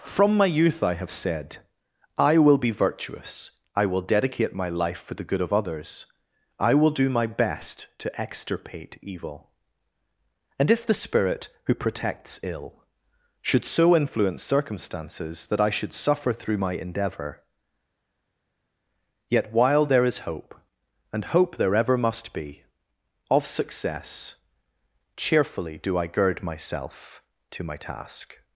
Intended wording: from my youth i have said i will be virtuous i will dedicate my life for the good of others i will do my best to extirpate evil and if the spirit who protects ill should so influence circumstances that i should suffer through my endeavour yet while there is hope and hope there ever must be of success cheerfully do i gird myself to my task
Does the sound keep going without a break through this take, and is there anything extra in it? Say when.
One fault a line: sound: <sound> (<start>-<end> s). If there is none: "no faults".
no faults